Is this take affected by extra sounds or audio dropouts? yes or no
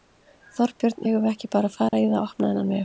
yes